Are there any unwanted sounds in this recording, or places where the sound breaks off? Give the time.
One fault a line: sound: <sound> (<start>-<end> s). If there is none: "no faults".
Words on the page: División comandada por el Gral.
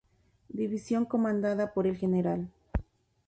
no faults